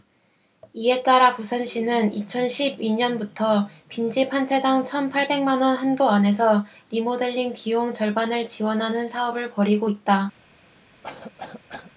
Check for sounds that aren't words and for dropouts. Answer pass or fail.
fail